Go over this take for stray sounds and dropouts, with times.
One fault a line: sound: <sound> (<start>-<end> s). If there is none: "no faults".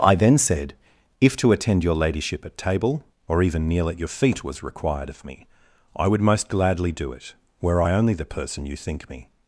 no faults